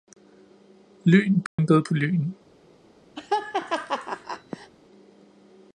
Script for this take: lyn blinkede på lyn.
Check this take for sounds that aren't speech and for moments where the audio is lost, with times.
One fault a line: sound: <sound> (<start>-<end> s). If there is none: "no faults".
sound: dropout (1.5-1.6 s)
sound: laugh (3.2-4.7 s)